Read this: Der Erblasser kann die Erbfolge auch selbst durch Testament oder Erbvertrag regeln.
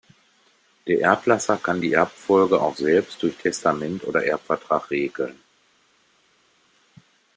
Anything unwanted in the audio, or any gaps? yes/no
no